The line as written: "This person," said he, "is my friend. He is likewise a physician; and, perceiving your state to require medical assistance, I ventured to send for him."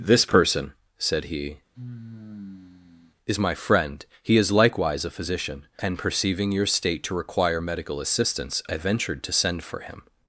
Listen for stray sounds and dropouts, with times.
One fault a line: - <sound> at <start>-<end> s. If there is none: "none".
- sigh at 1.7-3.1 s